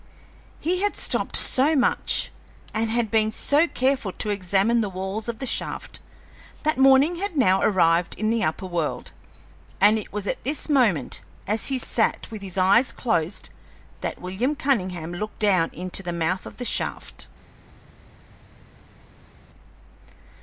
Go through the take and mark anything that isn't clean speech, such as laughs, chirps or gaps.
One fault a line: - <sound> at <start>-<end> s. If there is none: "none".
none